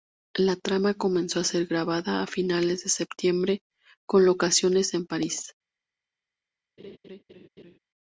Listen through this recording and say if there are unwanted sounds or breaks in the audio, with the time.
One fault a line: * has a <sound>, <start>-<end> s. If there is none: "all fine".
* has a laugh, 6.8-7.8 s